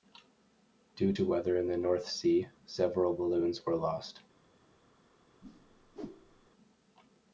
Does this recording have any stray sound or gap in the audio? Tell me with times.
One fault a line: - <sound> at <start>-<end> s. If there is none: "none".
- whoosh at 5.4-6.5 s